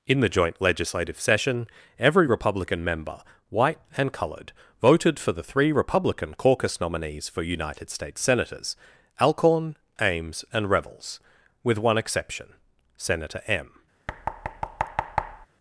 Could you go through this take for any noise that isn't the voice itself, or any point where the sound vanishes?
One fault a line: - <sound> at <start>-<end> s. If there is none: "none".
- thud at 14.1-15.5 s